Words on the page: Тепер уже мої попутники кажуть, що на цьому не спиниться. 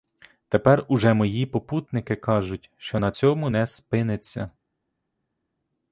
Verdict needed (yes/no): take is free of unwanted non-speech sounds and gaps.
yes